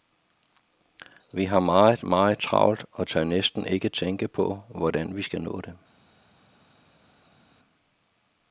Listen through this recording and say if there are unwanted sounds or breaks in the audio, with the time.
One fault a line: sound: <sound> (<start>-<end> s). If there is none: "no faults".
no faults